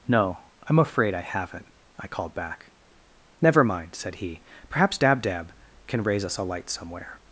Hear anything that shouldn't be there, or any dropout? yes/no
no